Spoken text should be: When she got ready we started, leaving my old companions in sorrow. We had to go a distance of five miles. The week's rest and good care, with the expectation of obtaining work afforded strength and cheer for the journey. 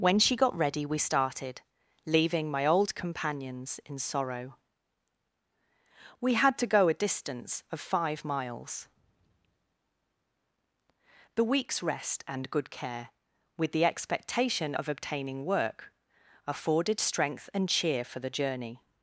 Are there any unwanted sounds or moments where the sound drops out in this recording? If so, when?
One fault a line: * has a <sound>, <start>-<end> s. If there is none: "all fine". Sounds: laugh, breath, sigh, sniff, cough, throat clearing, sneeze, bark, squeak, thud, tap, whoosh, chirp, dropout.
all fine